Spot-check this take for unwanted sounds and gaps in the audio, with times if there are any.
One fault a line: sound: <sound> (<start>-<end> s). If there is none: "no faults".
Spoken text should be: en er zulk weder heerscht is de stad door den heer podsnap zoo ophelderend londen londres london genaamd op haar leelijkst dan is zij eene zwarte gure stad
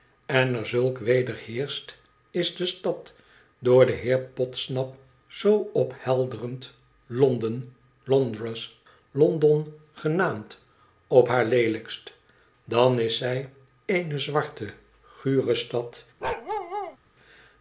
sound: bark (16.2-17.0 s)